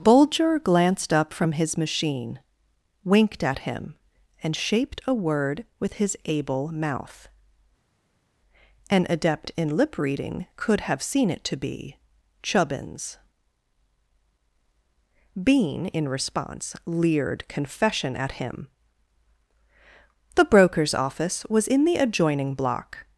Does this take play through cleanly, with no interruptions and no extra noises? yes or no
yes